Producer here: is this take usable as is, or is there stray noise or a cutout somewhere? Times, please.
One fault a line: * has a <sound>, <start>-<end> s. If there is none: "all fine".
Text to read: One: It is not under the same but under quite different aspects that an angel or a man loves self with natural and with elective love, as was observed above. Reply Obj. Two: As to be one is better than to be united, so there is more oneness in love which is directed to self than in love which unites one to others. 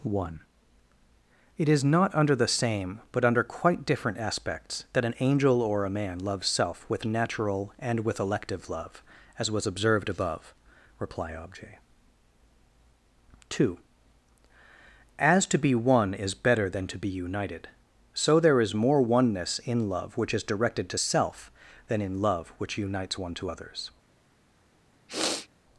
* has a sniff, 25.1-25.5 s